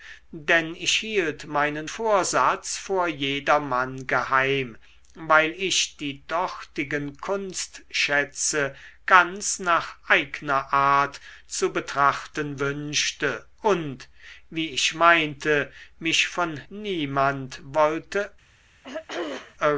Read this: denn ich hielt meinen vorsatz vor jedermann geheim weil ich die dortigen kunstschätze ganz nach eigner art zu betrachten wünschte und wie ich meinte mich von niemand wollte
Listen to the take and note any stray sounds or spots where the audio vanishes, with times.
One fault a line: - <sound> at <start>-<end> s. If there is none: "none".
- throat clearing at 18.8-19.6 s